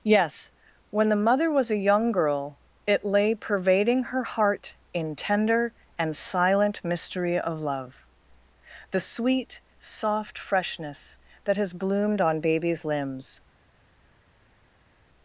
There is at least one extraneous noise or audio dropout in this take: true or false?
false